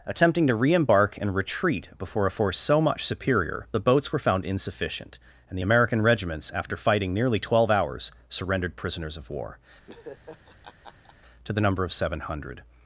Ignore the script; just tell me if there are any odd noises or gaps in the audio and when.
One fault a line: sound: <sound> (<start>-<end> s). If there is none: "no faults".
sound: laugh (9.9-11.2 s)